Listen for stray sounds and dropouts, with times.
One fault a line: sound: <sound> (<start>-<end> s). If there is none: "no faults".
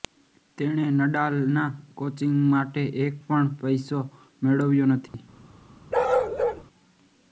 sound: dropout (5.1-5.1 s)
sound: bark (5.9-6.6 s)